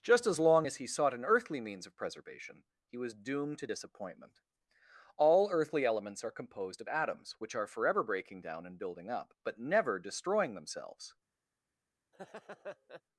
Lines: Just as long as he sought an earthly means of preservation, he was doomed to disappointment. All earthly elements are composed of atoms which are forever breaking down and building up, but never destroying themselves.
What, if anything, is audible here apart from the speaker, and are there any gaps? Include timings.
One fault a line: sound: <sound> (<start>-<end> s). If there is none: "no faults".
sound: laugh (12.1-13.0 s)